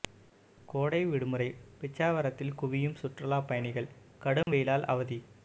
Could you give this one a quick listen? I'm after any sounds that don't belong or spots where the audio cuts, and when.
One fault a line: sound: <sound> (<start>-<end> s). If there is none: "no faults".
sound: dropout (4.4-4.5 s)